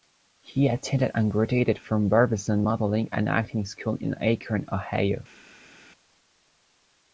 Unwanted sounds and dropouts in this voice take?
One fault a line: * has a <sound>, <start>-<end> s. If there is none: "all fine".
all fine